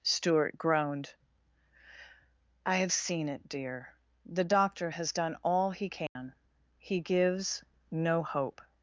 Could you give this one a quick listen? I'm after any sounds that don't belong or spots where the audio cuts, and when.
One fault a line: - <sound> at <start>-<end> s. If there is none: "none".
- dropout at 6.1-6.2 s